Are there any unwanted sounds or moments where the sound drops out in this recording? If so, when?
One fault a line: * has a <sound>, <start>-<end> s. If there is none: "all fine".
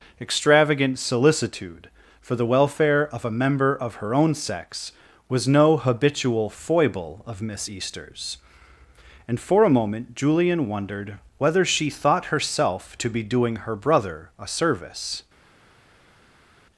all fine